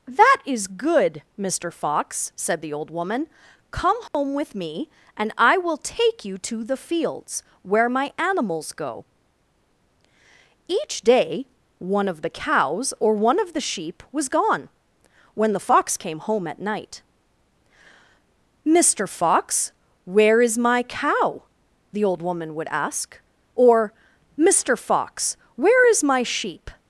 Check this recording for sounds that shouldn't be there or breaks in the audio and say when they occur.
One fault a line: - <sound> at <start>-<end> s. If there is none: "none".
- dropout at 4.1-4.1 s